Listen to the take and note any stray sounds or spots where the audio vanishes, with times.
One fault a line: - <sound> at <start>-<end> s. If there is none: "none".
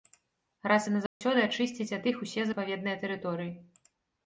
- dropout at 1.1-1.2 s